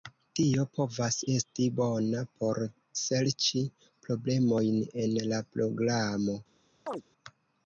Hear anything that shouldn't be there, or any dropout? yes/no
yes